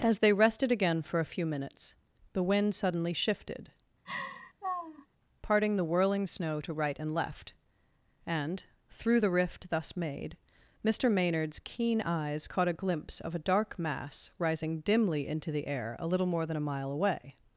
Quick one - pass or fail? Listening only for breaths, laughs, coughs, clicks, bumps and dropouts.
fail